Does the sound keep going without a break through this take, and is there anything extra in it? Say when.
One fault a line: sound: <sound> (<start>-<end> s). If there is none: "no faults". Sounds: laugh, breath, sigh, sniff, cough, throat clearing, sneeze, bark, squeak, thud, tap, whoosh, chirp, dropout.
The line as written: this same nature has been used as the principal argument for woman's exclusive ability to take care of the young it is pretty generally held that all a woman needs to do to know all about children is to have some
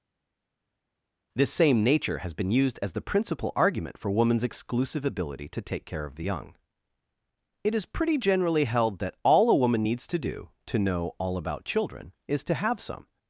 no faults